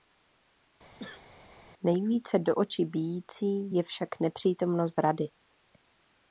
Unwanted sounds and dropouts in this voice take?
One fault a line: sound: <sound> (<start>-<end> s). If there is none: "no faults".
sound: sneeze (1.0-1.3 s)